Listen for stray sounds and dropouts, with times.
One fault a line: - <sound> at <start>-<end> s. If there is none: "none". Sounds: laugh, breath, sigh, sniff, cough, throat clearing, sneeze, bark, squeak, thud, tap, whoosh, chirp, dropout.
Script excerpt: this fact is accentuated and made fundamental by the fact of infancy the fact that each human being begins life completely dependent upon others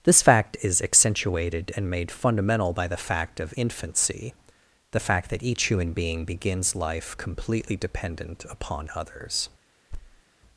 - thud at 9.9-10.2 s